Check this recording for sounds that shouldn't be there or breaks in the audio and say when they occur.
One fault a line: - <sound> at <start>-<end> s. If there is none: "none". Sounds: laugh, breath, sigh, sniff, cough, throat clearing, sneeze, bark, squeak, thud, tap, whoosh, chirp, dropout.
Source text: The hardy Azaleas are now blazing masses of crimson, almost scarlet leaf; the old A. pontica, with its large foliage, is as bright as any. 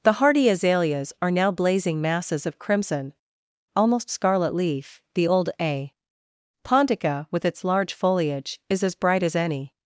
none